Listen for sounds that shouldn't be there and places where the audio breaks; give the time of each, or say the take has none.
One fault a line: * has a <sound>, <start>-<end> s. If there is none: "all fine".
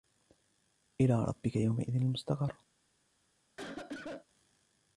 * has a cough, 3.6-4.3 s